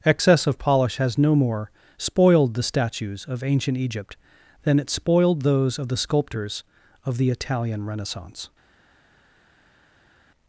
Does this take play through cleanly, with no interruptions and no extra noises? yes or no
yes